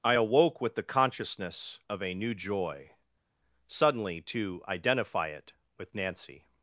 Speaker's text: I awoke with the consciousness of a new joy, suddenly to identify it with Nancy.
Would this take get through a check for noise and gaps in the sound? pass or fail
pass